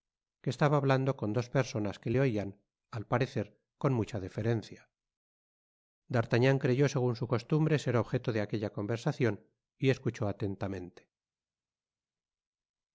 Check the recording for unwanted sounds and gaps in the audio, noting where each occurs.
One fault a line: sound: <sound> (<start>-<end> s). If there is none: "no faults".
no faults